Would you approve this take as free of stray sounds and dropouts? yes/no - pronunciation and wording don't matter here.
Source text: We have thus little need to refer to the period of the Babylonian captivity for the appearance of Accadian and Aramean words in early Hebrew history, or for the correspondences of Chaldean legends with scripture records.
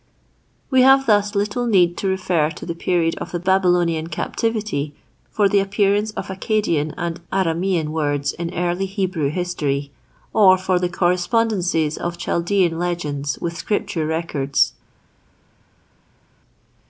yes